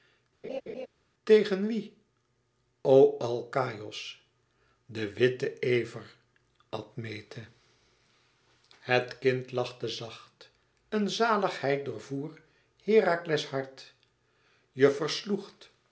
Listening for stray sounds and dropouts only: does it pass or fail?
fail